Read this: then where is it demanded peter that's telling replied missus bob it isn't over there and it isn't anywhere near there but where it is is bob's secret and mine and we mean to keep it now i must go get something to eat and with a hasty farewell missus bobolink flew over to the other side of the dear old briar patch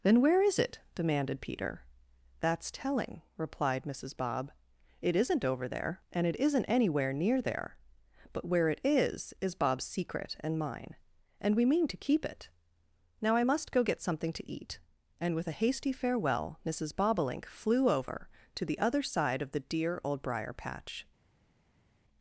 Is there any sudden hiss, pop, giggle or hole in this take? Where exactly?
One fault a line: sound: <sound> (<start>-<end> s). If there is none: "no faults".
no faults